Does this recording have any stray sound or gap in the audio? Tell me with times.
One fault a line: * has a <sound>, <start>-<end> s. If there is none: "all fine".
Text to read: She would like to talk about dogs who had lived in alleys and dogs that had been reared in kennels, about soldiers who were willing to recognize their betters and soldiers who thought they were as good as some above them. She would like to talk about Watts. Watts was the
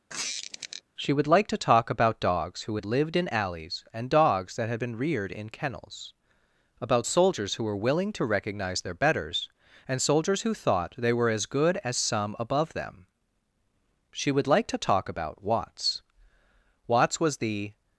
* has a squeak, 0.1-0.8 s